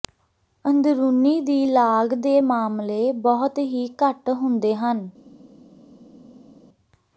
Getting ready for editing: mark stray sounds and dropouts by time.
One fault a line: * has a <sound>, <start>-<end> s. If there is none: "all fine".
all fine